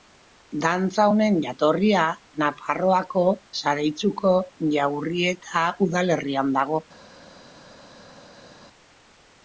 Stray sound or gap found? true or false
false